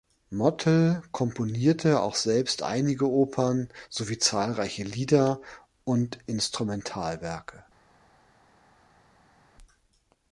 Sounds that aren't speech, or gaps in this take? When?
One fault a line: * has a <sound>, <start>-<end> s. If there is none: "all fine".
all fine